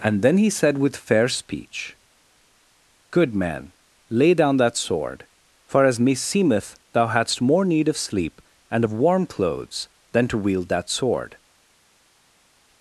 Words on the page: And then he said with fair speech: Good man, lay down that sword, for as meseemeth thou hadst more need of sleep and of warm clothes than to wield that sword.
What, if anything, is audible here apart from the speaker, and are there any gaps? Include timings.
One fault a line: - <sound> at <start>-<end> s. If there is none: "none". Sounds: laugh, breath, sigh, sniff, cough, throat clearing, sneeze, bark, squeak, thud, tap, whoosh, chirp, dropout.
none